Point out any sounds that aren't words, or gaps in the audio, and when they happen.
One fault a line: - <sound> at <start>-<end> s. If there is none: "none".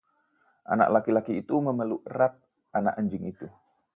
none